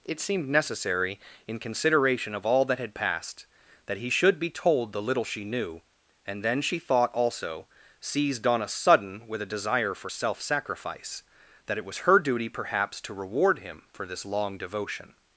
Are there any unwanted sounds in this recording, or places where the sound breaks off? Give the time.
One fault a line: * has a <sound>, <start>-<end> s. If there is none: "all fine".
all fine